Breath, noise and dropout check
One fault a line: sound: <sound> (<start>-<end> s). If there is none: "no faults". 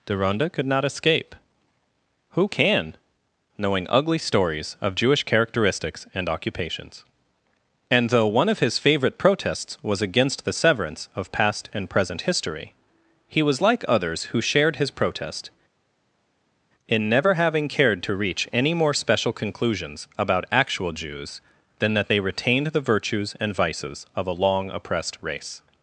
no faults